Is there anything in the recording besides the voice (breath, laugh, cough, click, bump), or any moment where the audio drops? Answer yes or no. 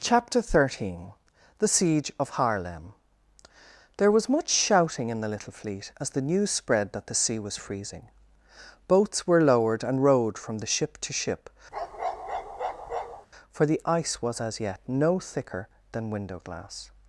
yes